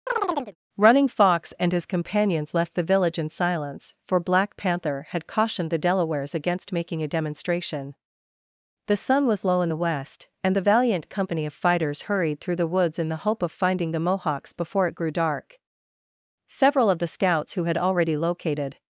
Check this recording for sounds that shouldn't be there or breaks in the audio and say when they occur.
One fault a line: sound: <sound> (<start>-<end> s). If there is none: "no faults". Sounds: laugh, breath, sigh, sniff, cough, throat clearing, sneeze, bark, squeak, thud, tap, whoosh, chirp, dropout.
sound: chirp (0.1-0.6 s)